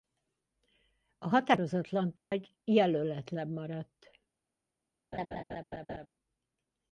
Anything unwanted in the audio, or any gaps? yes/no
yes